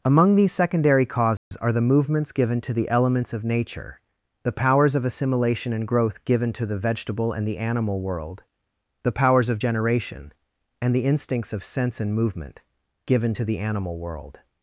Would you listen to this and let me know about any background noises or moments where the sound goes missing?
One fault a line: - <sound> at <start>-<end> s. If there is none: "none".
- dropout at 1.4-1.5 s